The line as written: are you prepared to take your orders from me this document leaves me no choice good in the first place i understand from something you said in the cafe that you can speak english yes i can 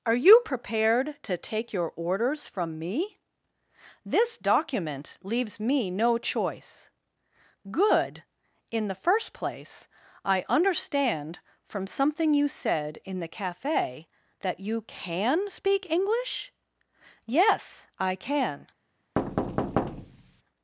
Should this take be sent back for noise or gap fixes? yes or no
yes